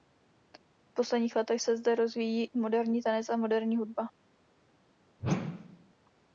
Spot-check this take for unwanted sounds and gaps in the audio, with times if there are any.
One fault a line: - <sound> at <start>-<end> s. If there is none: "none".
- whoosh at 5.2-5.9 s